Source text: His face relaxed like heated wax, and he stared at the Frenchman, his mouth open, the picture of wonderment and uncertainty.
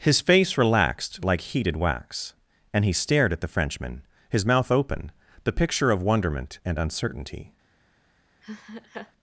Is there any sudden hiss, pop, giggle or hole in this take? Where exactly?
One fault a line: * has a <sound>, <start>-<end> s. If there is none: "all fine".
* has a laugh, 8.4-9.1 s